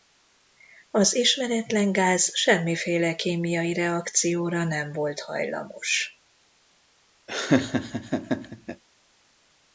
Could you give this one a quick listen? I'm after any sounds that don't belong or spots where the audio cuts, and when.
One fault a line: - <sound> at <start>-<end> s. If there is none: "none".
- laugh at 7.3-8.8 s